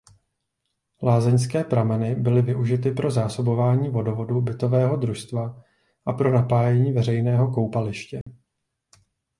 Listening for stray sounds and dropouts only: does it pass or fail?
fail